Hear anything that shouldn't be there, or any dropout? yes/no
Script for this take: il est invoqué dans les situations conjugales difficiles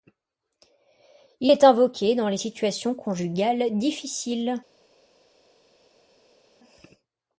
no